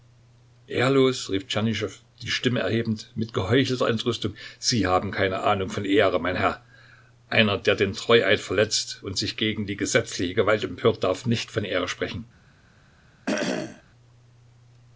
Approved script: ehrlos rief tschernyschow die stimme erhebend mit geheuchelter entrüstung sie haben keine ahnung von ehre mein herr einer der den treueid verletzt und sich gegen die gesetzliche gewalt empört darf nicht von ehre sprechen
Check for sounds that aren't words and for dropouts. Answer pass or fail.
fail